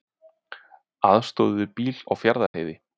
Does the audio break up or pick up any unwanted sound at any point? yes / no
yes